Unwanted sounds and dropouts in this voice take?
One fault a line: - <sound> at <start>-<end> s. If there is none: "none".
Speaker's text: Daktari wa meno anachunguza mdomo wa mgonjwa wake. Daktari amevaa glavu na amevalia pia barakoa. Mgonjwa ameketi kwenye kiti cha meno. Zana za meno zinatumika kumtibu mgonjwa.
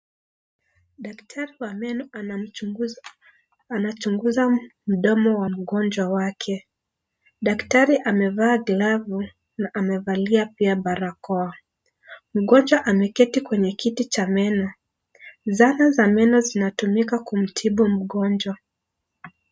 none